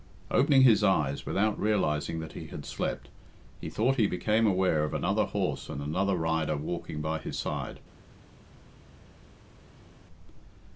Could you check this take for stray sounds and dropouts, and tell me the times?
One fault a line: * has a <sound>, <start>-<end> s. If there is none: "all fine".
all fine